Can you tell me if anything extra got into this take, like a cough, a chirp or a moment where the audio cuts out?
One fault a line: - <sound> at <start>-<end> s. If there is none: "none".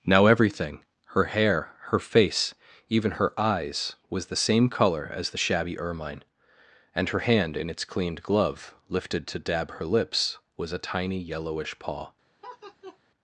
- laugh at 12.4-13.0 s